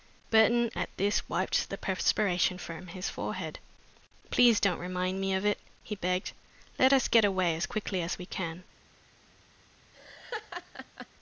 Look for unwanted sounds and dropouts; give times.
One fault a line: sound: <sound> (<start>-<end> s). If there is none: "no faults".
sound: laugh (9.9-11.1 s)